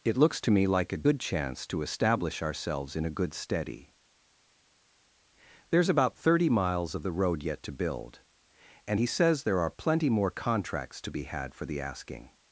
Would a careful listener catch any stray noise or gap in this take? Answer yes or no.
no